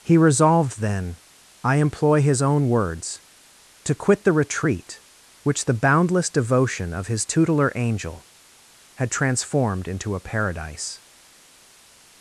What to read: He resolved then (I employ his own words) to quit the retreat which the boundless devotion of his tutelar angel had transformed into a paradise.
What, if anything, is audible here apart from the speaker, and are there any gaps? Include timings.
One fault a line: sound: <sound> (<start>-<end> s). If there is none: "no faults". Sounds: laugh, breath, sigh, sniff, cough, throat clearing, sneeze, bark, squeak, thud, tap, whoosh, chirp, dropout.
no faults